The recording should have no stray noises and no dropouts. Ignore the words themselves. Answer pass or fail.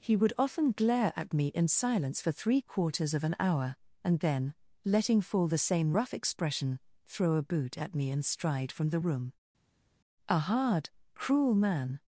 pass